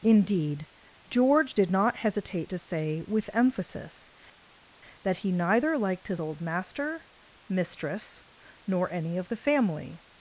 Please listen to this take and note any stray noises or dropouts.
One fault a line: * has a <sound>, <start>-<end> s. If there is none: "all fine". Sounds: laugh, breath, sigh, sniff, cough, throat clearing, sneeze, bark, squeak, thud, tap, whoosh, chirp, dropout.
all fine